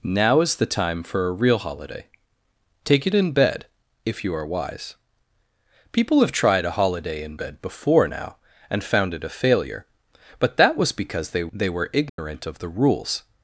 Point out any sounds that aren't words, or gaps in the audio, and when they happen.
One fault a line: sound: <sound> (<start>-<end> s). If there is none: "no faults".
sound: dropout (12.1-12.2 s)